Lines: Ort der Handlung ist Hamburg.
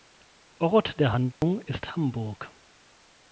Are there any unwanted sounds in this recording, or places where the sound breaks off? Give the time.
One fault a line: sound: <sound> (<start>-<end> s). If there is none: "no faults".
sound: dropout (1.3-1.4 s)